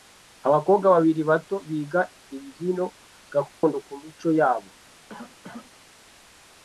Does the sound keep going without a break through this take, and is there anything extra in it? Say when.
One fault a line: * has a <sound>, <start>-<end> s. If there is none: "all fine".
* has a dropout, 3.5-3.6 s
* has a cough, 5.1-5.7 s